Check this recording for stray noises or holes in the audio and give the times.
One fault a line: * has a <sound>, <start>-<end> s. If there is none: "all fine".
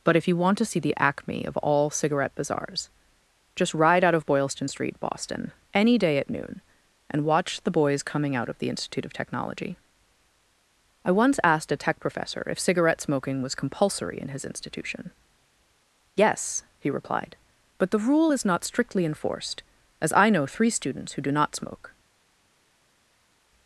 all fine